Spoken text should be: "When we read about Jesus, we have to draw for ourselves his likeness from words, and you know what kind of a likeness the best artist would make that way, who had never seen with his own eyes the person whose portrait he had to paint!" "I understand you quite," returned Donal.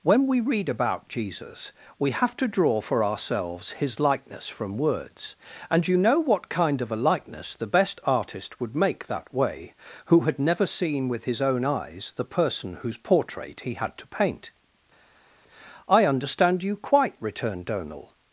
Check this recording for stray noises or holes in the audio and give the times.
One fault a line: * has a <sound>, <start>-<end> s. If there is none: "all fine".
all fine